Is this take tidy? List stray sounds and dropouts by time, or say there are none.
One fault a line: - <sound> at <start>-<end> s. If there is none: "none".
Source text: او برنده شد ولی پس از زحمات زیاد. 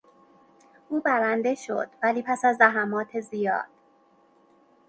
none